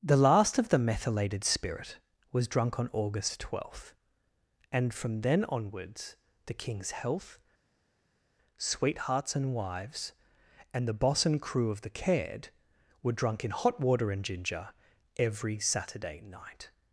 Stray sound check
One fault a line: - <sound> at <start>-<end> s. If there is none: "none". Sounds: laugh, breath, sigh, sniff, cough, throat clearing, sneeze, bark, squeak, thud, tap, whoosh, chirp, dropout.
none